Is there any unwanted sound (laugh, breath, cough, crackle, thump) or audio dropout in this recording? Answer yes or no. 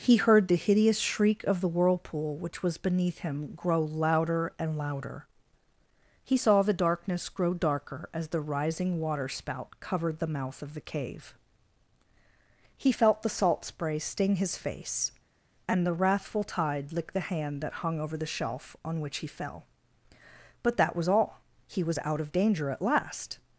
no